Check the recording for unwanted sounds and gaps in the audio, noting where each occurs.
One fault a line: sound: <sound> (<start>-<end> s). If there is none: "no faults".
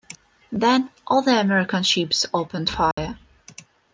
sound: dropout (2.9-3.0 s)